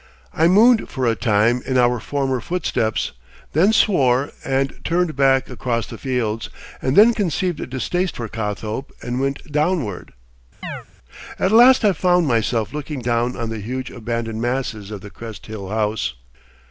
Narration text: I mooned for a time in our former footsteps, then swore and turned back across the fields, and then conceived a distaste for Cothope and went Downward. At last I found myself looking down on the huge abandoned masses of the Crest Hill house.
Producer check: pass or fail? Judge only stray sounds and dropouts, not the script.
fail